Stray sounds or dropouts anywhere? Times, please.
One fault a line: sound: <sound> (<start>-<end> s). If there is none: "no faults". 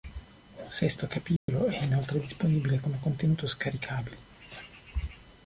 sound: dropout (1.4-1.5 s)